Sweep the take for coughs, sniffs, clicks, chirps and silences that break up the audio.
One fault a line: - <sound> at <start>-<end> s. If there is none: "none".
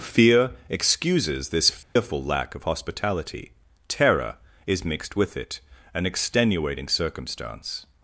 - dropout at 1.8-2.0 s